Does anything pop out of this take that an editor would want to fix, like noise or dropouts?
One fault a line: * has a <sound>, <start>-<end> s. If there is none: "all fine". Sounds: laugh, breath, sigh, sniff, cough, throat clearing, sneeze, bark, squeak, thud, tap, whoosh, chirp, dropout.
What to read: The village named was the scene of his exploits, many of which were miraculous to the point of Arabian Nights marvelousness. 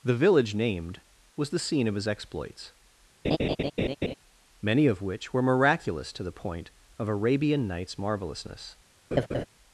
* has a laugh, 3.2-4.1 s
* has a laugh, 9.1-9.4 s